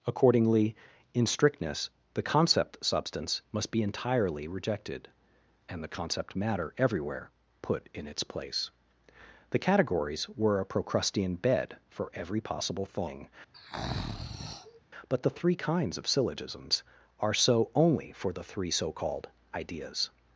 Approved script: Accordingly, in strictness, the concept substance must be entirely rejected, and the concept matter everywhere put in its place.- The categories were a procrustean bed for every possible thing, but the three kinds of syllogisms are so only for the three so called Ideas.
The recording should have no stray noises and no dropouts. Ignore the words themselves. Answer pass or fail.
fail